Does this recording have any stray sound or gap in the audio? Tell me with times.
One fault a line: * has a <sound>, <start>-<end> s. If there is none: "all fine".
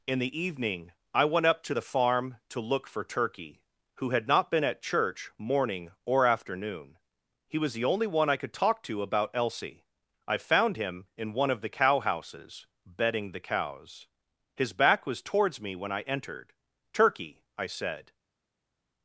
all fine